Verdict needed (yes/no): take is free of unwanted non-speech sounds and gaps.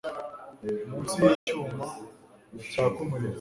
no